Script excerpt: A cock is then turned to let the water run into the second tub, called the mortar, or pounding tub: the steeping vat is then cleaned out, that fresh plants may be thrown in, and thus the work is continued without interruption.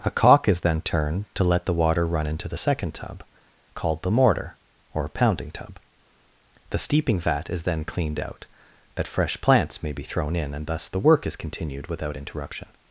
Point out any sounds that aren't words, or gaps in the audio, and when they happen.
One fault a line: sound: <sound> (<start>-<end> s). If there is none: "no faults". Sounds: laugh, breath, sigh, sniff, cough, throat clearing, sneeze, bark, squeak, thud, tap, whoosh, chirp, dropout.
no faults